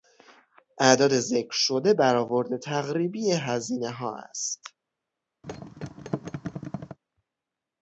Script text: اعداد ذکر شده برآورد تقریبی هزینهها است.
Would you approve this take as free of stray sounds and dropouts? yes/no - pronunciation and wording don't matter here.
no